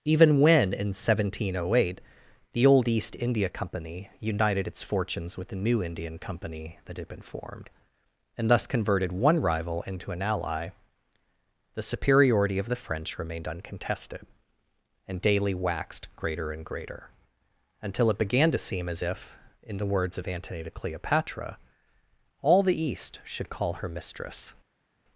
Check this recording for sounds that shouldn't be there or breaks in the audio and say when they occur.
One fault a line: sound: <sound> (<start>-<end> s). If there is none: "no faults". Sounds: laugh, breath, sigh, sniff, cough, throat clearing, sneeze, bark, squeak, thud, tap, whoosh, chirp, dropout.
no faults